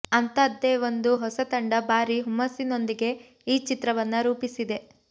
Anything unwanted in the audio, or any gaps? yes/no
no